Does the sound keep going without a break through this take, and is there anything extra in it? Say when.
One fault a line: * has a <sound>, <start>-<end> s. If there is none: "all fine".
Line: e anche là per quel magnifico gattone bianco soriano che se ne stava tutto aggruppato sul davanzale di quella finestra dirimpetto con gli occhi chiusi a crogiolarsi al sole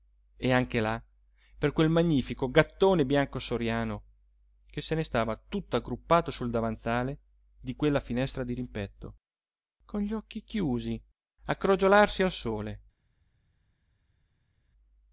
all fine